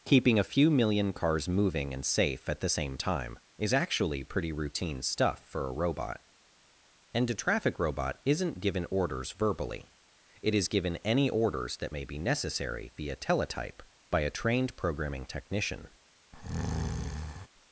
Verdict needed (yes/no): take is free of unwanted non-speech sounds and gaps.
no